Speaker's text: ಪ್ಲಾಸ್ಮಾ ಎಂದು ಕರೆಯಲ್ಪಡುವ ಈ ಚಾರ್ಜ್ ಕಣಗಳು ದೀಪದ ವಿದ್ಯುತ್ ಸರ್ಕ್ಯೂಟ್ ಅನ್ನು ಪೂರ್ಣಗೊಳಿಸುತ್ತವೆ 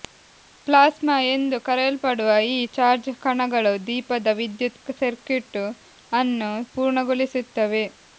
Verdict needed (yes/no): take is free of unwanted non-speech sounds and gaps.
yes